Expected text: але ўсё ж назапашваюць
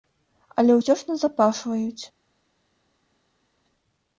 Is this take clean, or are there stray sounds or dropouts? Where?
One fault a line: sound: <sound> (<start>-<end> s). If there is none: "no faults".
no faults